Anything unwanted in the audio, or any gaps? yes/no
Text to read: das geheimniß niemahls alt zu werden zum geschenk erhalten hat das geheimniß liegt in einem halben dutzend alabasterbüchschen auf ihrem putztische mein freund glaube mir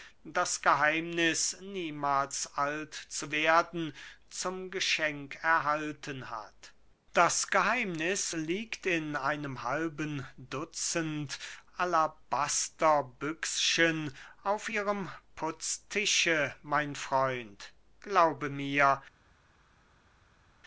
no